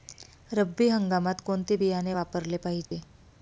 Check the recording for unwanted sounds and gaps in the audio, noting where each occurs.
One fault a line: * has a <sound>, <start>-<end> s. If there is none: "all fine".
* has a dropout, 2.8-2.9 s